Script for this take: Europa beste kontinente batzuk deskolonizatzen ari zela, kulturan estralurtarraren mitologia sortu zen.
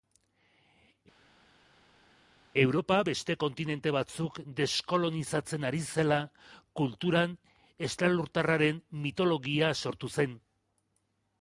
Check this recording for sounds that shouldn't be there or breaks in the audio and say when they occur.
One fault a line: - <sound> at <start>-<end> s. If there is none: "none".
none